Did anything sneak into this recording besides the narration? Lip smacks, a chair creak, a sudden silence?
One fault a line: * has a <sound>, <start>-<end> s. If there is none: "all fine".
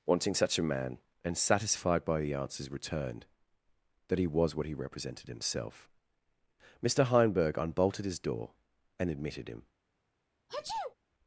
* has a sneeze, 10.5-10.9 s